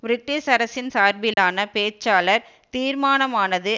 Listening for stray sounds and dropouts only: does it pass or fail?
fail